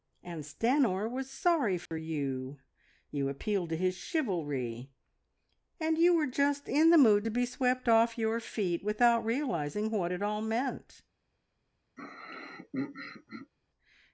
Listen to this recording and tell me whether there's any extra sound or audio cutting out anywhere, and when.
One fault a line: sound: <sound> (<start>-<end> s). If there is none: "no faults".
sound: dropout (1.9-1.9 s)
sound: throat clearing (12.0-13.5 s)